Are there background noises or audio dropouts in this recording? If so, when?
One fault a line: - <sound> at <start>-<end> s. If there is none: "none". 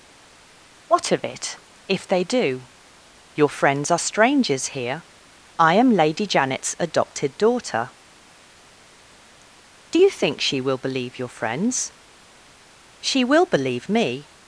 none